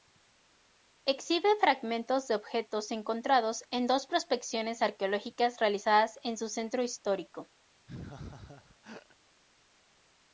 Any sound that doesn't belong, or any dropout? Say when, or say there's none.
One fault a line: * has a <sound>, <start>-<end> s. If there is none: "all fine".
* has a laugh, 7.9-9.2 s